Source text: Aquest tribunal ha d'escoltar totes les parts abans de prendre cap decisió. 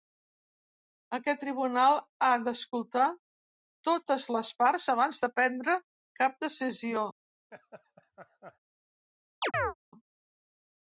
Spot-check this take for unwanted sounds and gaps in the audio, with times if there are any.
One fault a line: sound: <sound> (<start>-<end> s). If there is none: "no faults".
sound: laugh (7.5-8.6 s)
sound: chirp (9.4-9.7 s)